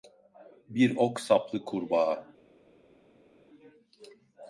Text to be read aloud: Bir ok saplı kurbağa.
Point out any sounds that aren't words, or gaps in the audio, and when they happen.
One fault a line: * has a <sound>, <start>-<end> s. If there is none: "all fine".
all fine